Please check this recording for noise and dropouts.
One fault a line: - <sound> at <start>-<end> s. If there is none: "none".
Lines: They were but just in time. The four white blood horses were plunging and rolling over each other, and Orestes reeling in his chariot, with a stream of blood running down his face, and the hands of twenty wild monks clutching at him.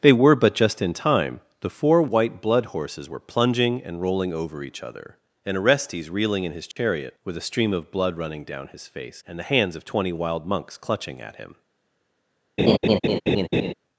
- dropout at 6.7-6.8 s
- laugh at 12.6-13.7 s